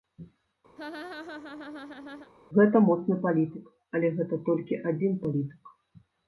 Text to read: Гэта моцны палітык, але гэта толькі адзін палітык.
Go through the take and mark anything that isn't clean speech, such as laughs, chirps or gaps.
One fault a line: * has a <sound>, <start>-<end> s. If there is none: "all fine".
* has a laugh, 0.8-2.3 s